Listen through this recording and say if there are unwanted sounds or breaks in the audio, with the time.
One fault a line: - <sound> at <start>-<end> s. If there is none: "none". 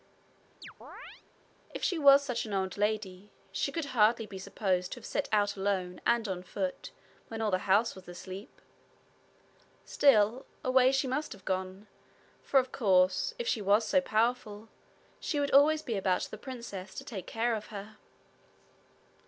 - chirp at 0.6-1.2 s